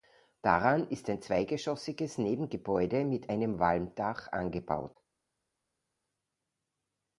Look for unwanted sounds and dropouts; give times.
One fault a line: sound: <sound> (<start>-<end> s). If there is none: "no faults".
no faults